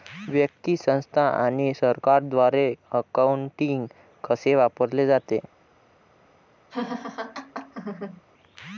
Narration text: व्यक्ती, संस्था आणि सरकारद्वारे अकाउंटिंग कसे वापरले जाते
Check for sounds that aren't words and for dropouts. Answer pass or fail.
fail